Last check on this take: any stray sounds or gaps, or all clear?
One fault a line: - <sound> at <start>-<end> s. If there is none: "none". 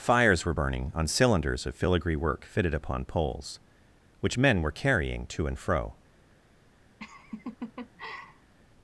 - laugh at 7.0-8.5 s